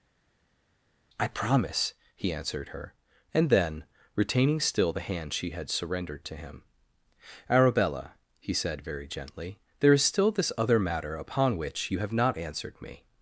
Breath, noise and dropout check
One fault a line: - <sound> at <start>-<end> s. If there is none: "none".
none